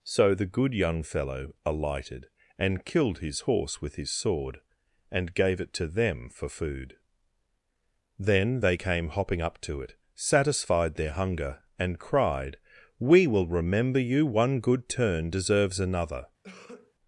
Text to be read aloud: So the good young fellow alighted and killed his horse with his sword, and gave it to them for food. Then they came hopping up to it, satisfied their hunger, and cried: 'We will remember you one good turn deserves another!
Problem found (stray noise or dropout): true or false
true